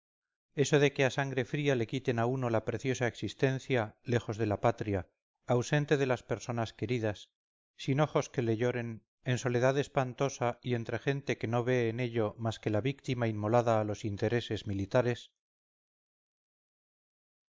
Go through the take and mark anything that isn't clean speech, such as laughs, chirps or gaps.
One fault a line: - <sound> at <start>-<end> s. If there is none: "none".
none